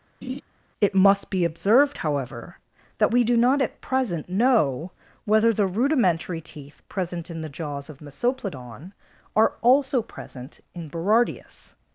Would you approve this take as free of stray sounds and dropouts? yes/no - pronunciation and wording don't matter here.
no